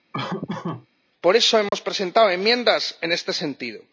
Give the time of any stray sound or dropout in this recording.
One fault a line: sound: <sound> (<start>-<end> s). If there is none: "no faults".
sound: laugh (0.1-0.9 s)
sound: dropout (1.7-1.7 s)